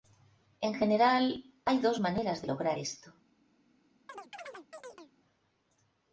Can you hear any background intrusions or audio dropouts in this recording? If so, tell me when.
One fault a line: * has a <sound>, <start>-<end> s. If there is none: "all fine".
* has a chirp, 4.1-5.1 s